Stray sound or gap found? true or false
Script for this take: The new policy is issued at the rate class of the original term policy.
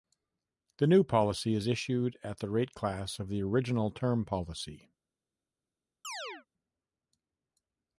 true